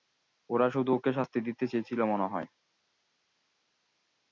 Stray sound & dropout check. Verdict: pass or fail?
pass